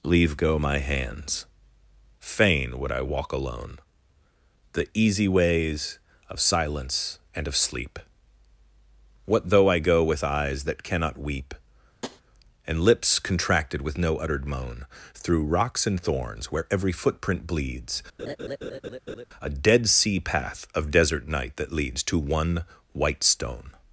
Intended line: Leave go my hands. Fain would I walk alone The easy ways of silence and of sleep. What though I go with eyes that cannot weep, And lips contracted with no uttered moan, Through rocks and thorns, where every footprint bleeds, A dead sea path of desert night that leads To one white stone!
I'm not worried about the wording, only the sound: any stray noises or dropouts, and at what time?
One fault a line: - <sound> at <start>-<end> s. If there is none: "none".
- tap at 12.0-12.2 s
- laugh at 18.2-19.3 s